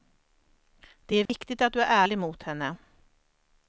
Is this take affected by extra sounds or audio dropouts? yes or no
yes